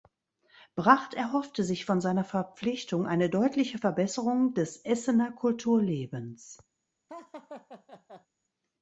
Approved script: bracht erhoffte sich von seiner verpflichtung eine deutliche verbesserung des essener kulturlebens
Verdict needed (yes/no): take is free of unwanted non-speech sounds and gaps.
no